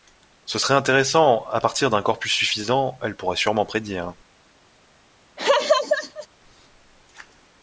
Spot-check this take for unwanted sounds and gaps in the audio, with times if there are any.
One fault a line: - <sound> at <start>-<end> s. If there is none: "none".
- laugh at 5.4-6.3 s